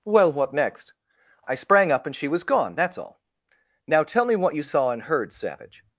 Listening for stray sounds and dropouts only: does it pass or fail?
pass